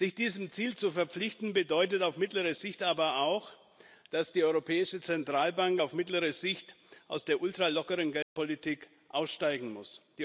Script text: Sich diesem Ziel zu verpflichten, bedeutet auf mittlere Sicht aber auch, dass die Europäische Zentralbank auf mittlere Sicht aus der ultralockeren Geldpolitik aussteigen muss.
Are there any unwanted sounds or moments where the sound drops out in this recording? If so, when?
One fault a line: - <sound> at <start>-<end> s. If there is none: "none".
- dropout at 8.2-8.4 s